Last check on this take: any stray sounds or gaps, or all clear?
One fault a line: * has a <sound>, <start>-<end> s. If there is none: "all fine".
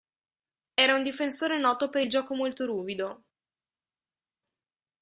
all fine